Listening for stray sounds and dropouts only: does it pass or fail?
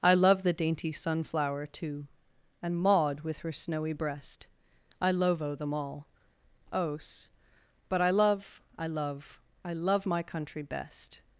pass